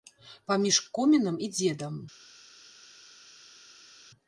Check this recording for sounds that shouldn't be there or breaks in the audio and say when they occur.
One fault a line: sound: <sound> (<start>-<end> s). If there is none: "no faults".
no faults